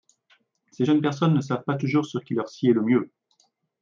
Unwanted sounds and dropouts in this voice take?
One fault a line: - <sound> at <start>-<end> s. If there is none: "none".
none